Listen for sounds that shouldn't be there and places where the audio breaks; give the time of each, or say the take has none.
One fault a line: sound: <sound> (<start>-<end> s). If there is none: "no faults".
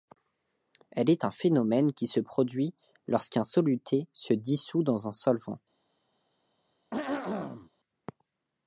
sound: throat clearing (6.9-7.7 s)